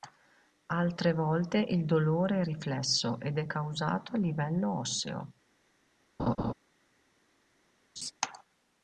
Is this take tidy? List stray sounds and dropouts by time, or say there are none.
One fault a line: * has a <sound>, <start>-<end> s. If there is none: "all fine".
* has a laugh, 6.2-6.5 s
* has a laugh, 8.0-8.1 s